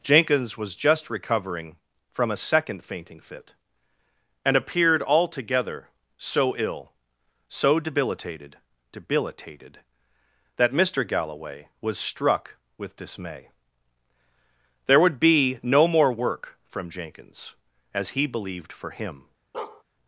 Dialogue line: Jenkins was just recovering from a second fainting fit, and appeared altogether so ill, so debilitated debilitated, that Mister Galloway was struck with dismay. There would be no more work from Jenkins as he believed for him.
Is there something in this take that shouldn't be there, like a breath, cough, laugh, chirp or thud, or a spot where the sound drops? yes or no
yes